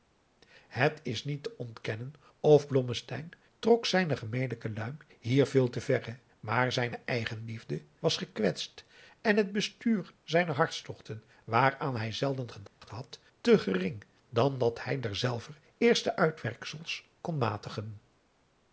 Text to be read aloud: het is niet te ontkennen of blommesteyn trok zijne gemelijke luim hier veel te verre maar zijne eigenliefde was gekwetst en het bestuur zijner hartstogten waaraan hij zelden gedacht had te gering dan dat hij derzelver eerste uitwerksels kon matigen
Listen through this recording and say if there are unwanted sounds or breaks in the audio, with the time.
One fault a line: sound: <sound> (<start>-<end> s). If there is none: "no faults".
sound: dropout (12.7-12.8 s)